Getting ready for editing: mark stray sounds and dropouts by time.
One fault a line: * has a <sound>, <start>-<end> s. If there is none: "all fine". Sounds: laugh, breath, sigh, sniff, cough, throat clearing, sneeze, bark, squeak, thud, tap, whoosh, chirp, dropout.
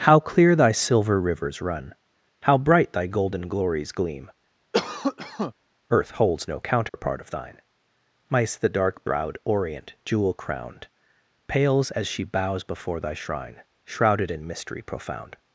* has a cough, 4.7-5.5 s
* has a dropout, 6.9-6.9 s